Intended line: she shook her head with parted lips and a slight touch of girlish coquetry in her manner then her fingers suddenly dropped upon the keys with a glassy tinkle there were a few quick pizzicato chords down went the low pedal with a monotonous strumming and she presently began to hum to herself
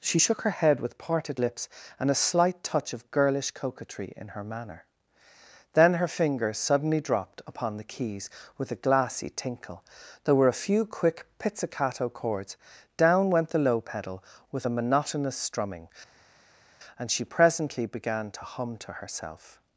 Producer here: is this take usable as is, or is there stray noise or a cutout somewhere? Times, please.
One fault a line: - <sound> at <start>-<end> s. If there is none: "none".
none